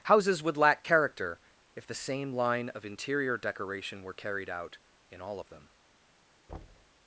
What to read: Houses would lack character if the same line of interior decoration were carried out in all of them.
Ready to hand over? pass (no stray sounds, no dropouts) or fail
fail